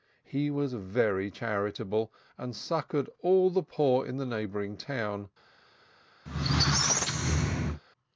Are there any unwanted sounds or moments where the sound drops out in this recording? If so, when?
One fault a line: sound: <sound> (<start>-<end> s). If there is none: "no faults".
sound: squeak (6.3-7.8 s)